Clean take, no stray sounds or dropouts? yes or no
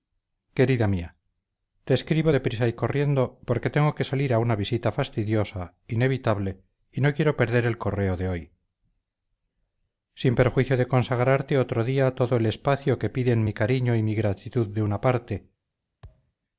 no